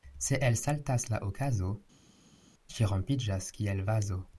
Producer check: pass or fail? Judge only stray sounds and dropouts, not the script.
pass